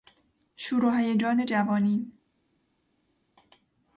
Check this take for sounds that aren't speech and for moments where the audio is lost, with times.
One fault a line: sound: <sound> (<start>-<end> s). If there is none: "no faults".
no faults